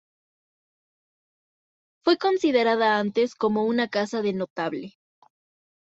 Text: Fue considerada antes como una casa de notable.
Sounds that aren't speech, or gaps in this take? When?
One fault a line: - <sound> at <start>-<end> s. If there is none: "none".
none